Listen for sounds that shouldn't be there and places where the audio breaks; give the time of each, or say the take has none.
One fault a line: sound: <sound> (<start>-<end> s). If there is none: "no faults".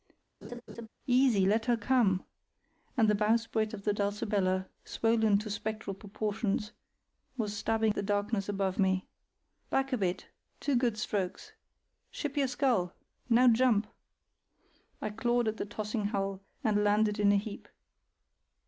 sound: laugh (0.4-0.9 s)